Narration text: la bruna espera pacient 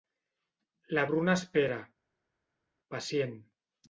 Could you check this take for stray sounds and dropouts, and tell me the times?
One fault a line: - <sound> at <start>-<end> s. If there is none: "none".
none